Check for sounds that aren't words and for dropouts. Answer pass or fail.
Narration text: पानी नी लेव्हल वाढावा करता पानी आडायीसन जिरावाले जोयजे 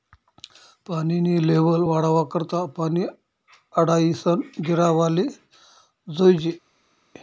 pass